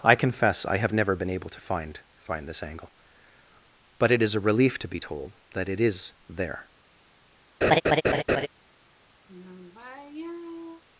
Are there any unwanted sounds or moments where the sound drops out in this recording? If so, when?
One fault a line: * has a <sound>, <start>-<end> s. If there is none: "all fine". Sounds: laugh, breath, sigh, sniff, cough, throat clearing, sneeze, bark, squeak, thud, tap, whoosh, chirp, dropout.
* has a laugh, 7.6-8.5 s
* has a sigh, 9.3-10.8 s